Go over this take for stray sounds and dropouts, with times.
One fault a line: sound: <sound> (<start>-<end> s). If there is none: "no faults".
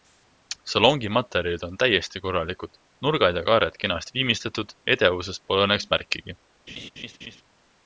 sound: laugh (6.7-7.4 s)